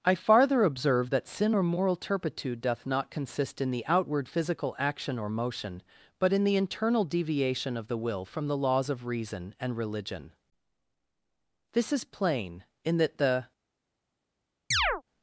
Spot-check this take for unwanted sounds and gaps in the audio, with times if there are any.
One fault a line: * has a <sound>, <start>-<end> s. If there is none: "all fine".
* has a chirp, 14.7-15.0 s